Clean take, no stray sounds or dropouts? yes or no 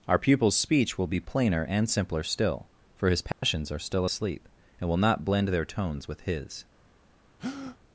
no